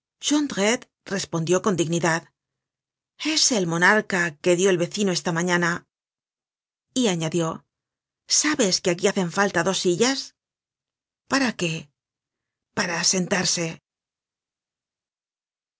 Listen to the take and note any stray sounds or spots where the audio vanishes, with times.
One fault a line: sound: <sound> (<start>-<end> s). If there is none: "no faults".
no faults